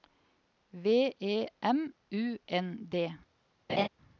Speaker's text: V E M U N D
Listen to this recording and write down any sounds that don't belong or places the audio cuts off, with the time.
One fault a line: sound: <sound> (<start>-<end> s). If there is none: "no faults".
sound: laugh (3.7-3.9 s)